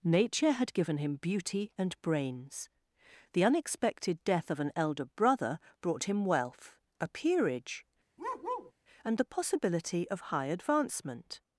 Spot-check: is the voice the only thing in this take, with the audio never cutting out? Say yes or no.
no